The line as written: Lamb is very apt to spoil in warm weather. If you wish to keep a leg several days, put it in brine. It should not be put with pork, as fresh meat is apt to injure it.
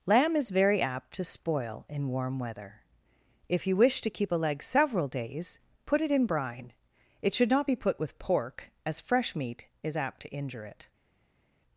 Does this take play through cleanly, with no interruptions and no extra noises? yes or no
yes